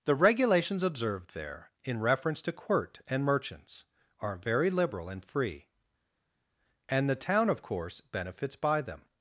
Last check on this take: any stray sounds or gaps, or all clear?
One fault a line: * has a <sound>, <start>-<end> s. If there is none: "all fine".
all fine